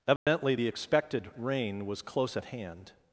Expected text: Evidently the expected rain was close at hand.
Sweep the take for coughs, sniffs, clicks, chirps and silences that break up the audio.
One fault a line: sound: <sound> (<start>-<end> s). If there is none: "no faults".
sound: dropout (0.2-0.3 s)